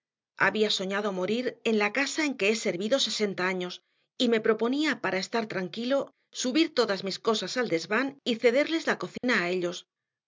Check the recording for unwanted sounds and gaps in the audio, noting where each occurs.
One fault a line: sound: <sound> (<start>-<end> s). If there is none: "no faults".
sound: dropout (9.2-9.2 s)